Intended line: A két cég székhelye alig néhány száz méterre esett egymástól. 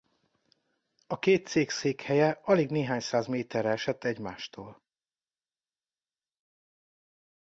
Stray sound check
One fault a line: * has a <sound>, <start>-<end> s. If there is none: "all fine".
all fine